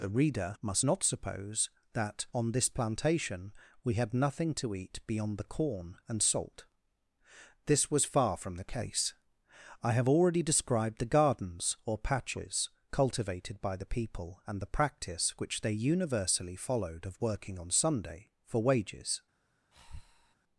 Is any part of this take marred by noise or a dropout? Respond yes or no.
yes